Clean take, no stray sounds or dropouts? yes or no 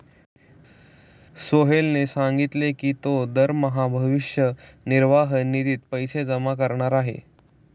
yes